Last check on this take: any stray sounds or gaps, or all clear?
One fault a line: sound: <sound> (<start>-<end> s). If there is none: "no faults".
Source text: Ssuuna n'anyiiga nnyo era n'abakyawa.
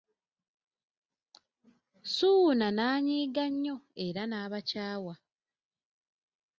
no faults